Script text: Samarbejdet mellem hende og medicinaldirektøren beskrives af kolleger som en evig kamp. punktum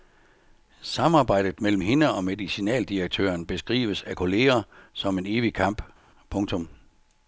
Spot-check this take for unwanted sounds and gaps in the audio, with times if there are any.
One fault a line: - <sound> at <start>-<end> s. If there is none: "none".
none